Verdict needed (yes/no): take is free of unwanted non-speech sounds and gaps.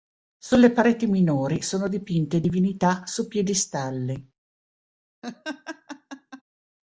no